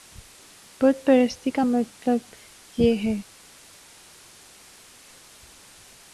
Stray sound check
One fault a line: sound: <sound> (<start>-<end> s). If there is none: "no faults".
no faults